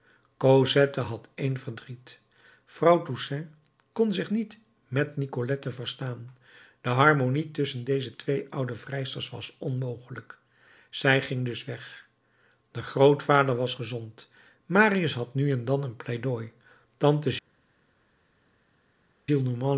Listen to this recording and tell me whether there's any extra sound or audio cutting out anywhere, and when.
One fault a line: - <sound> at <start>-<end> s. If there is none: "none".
none